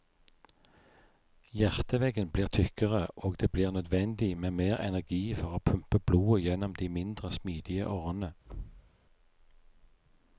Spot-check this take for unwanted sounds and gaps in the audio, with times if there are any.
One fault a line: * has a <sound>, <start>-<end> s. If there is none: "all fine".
* has a thud, 8.4-8.9 s